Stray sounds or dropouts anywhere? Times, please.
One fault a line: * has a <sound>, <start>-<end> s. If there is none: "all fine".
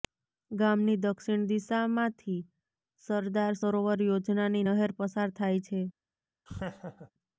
* has a laugh, 6.5-7.1 s